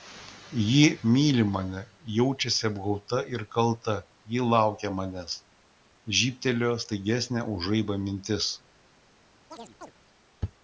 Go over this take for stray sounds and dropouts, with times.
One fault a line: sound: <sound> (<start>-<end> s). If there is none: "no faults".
sound: chirp (9.5-9.9 s)